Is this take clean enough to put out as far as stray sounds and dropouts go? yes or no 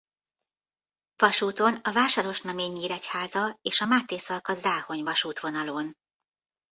yes